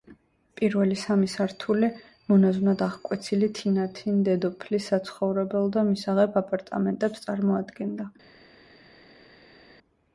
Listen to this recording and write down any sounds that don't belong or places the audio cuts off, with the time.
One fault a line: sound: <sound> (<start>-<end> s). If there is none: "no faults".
no faults